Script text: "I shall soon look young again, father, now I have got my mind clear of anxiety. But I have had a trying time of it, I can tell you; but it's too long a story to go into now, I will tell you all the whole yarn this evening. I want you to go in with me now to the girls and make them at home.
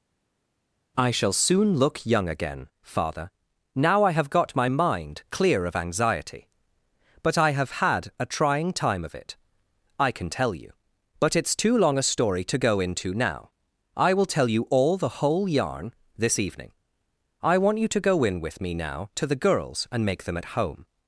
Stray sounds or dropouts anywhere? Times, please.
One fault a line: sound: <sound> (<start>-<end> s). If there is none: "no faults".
no faults